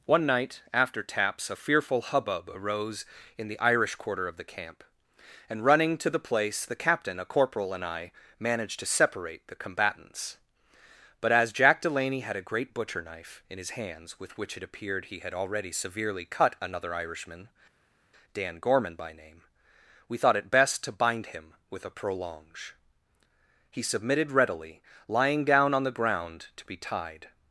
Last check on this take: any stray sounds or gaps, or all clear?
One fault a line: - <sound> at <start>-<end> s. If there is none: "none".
none